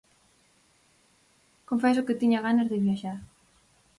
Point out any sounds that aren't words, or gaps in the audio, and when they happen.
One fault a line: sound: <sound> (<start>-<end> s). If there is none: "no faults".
no faults